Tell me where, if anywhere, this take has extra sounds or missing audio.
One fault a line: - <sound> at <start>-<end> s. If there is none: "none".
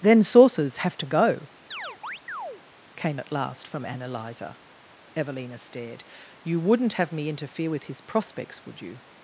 - chirp at 1.7-2.6 s